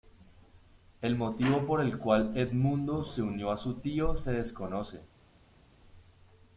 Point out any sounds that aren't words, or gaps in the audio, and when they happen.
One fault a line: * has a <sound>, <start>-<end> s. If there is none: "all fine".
all fine